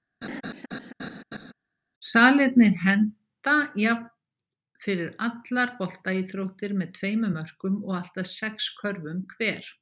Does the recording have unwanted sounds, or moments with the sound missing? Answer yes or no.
yes